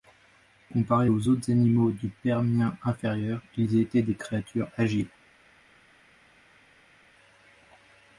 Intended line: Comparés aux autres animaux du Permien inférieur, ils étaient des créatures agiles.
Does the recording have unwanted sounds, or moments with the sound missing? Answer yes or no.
no